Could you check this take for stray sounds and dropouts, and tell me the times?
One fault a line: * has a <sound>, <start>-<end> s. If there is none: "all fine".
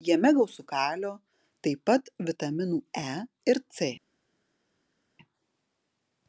all fine